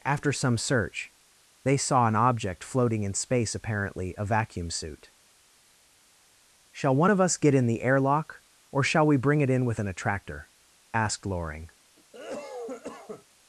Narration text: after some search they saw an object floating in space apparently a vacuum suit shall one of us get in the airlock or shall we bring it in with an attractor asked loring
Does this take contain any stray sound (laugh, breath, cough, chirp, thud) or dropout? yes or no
yes